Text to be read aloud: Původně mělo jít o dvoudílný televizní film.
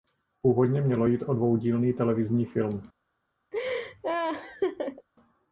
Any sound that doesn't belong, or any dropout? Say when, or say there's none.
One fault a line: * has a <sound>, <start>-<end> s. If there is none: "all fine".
* has a laugh, 3.5-5.1 s